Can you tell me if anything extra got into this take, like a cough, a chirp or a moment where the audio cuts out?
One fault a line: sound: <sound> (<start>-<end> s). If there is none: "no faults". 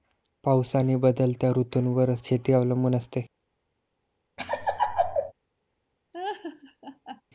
sound: laugh (4.4-5.3 s)
sound: laugh (6.1-7.2 s)